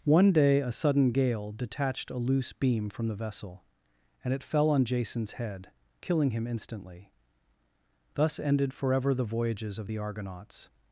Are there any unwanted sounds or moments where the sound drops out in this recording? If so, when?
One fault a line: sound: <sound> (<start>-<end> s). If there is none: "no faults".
no faults